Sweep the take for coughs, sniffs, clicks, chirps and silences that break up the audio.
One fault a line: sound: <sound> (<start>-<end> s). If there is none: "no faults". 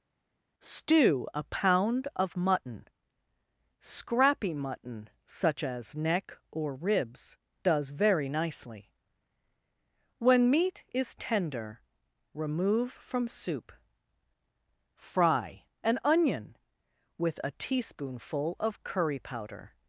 no faults